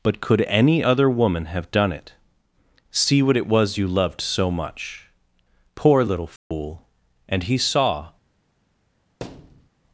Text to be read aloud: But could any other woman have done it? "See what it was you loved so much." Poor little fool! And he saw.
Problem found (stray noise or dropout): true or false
true